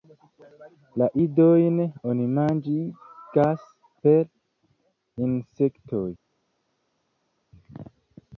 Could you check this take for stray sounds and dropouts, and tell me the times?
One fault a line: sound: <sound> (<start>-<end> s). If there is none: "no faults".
no faults